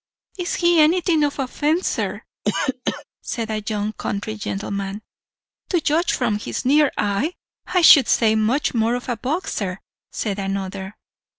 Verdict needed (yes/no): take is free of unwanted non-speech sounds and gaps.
no